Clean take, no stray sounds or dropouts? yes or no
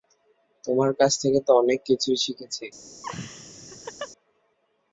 no